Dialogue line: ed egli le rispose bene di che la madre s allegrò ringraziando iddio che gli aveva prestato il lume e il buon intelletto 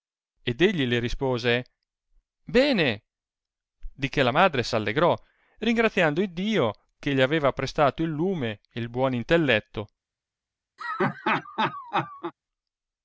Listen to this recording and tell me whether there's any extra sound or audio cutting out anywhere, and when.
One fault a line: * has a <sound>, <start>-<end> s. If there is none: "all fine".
* has a laugh, 10.8-12.3 s